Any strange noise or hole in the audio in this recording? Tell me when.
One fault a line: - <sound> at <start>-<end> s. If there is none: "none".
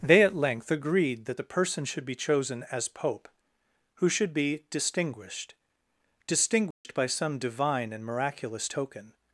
- dropout at 6.7-6.8 s